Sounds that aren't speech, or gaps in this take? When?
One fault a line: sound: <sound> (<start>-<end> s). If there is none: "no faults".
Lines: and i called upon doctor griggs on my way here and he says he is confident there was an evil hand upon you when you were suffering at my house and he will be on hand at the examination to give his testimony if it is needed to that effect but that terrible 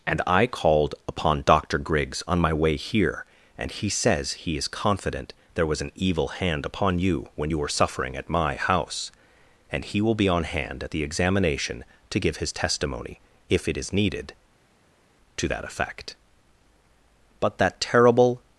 no faults